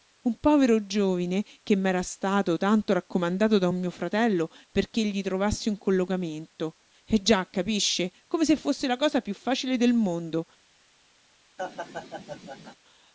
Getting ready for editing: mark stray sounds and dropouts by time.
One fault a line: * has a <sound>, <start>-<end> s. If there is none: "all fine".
* has a laugh, 11.6-12.8 s